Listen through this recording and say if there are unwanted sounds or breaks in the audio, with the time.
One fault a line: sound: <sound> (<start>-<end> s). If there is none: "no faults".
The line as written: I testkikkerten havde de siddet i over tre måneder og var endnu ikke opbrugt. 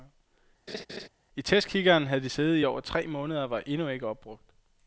sound: laugh (0.7-1.1 s)